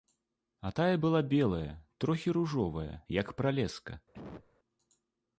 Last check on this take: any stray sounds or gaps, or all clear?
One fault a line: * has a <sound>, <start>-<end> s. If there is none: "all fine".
* has a cough, 4.1-4.5 s